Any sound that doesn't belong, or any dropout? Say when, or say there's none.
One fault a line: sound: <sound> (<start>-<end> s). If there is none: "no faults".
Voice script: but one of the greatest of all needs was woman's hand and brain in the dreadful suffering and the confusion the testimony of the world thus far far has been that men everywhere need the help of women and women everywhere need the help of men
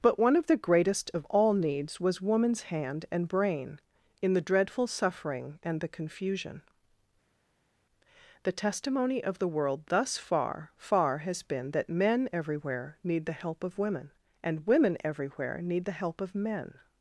no faults